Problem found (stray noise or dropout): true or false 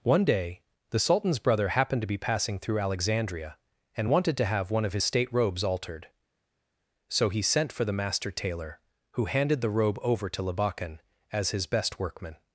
false